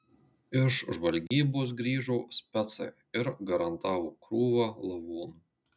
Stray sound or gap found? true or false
true